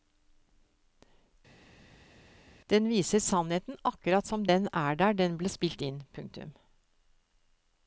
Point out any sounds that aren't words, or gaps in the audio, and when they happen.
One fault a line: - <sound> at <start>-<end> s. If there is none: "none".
none